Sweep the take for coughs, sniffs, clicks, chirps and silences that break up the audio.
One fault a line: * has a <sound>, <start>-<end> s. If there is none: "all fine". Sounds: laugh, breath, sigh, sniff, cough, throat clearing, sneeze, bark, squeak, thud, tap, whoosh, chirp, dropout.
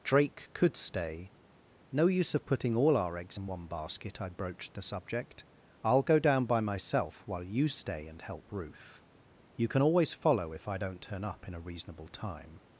all fine